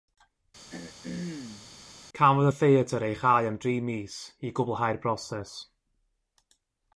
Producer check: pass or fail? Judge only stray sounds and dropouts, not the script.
fail